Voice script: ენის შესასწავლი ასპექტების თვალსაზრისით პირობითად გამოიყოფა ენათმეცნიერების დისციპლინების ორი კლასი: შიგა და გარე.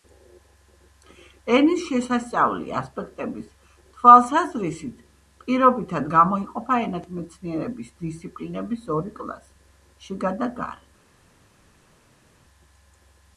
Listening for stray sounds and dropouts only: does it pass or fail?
pass